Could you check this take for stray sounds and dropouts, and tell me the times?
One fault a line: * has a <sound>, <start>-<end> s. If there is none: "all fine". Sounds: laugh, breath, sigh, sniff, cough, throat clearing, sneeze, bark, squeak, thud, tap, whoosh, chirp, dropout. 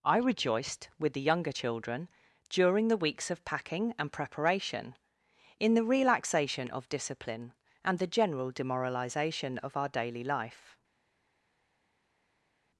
all fine